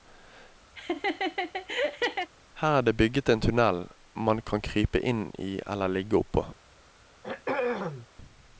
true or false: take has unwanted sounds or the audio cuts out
true